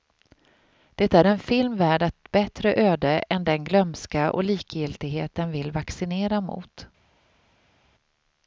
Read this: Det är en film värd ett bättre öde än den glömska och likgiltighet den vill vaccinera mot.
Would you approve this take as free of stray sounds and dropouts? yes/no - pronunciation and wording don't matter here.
yes